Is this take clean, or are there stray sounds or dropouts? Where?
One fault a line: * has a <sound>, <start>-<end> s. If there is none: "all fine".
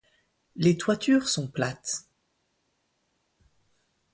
all fine